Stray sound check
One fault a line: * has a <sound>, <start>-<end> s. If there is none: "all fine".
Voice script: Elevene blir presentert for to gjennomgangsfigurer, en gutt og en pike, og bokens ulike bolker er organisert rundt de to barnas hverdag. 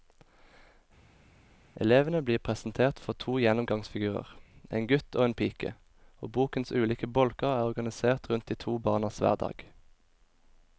all fine